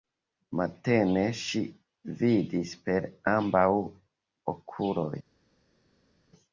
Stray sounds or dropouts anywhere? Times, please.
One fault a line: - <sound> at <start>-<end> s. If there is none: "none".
none